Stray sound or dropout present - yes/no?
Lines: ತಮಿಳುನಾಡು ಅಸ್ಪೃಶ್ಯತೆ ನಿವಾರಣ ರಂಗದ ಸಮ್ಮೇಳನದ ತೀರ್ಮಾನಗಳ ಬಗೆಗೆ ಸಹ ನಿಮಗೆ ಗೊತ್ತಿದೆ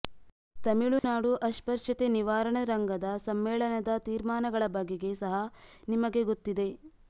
yes